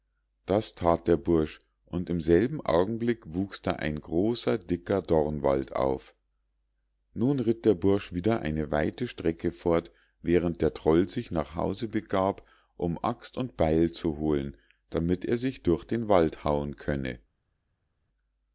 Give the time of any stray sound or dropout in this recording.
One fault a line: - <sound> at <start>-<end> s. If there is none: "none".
none